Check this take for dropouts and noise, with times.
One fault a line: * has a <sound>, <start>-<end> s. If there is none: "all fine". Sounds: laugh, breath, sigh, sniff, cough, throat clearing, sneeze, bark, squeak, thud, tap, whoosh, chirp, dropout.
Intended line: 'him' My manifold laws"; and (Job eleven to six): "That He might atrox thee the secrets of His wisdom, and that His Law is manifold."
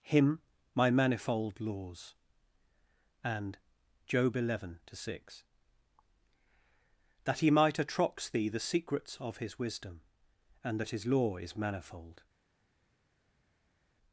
all fine